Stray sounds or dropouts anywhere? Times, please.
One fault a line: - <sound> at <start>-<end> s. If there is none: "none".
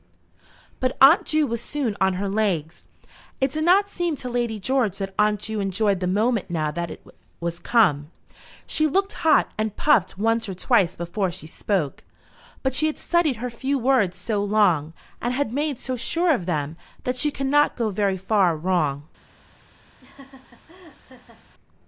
- laugh at 20.0-21.4 s